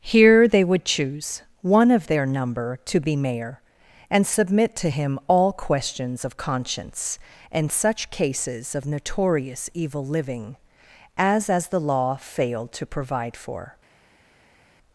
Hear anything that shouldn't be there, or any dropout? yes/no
no